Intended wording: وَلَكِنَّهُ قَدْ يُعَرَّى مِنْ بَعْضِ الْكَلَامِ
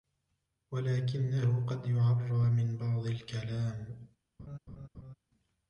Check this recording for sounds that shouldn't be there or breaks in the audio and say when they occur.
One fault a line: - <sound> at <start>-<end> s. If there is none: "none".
- laugh at 4.4-5.1 s